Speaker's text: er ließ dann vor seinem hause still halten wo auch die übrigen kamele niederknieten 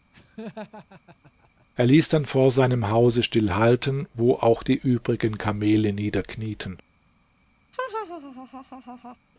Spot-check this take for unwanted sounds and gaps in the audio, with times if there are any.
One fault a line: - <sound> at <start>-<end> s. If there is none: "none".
- laugh at 0.1-1.7 s
- laugh at 7.7-9.2 s